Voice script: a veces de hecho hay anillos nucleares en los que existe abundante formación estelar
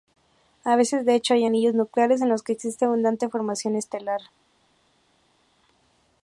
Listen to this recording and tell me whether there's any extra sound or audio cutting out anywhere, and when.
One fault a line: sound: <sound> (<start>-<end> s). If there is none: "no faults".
no faults